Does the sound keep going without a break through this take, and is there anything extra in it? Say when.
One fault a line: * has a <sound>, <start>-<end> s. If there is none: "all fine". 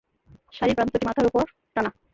all fine